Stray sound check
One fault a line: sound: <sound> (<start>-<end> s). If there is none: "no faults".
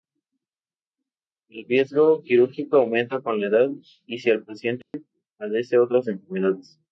sound: dropout (4.8-4.9 s)